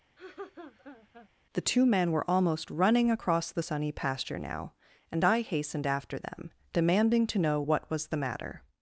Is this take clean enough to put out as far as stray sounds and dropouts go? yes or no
no